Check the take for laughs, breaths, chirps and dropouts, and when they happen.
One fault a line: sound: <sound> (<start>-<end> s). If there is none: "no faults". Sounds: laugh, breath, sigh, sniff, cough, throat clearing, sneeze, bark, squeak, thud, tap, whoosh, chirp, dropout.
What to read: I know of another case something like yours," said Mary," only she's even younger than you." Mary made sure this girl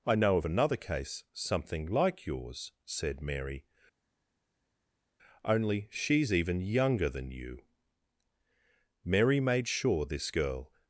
no faults